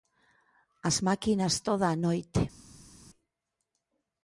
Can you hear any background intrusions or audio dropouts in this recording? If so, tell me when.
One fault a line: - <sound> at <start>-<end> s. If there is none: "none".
none